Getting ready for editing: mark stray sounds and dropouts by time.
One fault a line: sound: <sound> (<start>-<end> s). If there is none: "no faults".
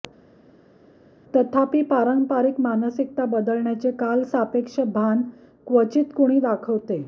no faults